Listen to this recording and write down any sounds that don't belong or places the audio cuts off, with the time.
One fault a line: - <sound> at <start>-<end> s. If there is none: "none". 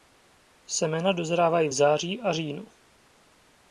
none